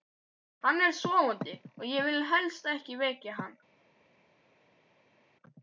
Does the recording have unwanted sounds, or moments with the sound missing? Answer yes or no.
no